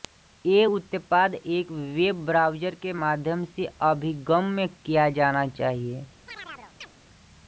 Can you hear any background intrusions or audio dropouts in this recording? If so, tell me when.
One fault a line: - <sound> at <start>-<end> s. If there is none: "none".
- chirp at 6.3-6.9 s